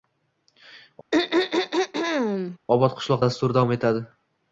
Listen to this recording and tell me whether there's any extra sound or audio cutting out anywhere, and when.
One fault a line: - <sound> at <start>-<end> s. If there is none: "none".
- throat clearing at 1.1-2.6 s